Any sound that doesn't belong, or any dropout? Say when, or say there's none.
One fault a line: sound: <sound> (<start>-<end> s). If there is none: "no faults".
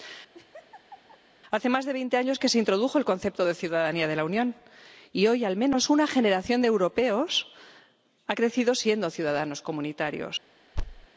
sound: laugh (0.3-1.2 s)
sound: thud (10.8-11.1 s)